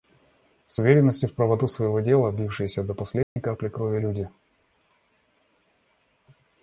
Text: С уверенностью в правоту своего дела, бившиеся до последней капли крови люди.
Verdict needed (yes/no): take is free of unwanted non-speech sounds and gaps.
no